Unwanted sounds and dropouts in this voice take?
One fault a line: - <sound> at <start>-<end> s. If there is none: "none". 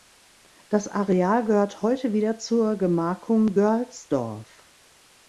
none